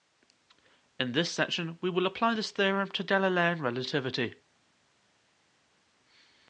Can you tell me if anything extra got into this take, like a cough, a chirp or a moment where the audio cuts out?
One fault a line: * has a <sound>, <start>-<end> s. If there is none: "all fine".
all fine